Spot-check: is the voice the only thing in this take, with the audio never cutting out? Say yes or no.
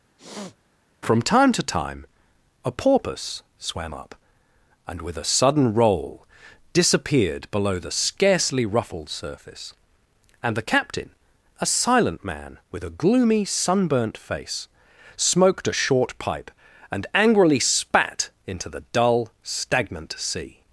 no